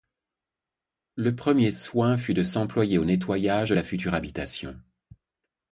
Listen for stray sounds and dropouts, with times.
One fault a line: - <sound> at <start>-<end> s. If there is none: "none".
none